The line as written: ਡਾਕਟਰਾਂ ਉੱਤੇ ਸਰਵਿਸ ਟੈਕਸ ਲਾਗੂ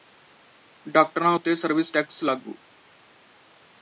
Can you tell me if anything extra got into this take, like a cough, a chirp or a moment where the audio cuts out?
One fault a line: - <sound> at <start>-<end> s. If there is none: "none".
none